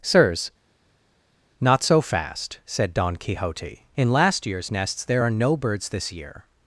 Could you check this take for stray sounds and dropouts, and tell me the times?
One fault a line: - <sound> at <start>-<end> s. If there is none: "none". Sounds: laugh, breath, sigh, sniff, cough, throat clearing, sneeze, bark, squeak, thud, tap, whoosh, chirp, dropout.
none